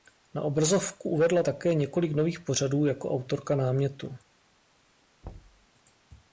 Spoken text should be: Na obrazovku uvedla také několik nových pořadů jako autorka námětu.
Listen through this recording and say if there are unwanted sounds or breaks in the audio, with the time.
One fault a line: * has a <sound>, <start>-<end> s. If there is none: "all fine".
* has a thud, 5.2-5.7 s